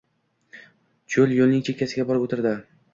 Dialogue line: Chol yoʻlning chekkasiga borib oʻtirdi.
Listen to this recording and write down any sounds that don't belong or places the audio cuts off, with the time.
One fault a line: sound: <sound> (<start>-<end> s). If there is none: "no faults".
no faults